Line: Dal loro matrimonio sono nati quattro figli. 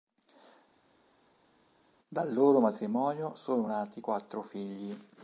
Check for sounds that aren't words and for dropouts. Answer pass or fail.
pass